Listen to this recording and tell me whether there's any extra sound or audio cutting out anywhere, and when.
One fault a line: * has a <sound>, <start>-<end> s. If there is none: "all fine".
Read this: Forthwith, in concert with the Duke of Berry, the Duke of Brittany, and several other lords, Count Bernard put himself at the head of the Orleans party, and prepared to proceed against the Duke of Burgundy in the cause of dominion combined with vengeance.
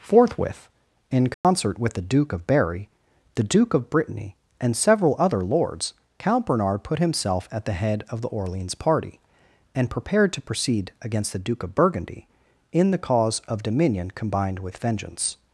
* has a dropout, 1.3-1.4 s